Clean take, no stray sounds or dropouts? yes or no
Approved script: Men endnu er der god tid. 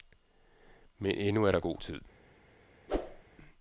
no